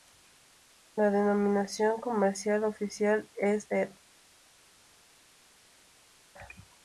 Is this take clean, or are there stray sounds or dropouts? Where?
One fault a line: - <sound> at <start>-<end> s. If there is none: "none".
none